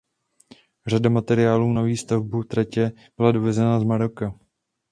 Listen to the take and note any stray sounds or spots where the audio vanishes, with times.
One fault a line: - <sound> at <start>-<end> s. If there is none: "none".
none